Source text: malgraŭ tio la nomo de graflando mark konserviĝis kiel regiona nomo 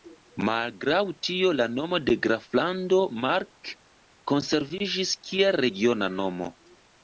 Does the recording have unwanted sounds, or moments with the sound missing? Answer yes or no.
no